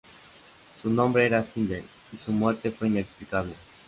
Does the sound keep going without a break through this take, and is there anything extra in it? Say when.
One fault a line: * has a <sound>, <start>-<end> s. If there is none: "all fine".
all fine